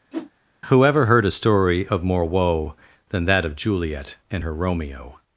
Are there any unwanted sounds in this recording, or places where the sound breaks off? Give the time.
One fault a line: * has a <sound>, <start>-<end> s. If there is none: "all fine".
* has a whoosh, 0.1-0.3 s